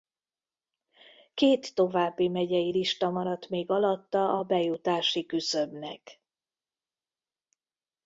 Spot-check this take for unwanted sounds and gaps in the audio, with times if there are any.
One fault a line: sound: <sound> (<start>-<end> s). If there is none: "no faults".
no faults